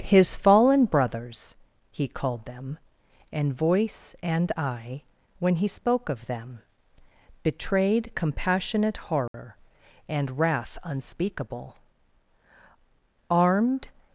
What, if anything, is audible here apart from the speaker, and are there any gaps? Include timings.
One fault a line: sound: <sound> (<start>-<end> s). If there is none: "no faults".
sound: dropout (9.3-9.3 s)